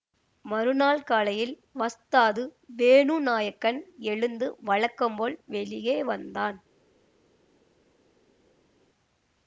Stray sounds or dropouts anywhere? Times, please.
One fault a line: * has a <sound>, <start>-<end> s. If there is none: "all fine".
all fine